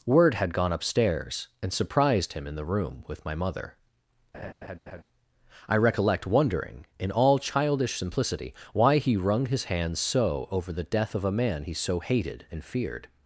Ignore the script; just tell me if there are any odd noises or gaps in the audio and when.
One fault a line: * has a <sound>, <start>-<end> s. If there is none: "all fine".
* has a laugh, 4.3-5.0 s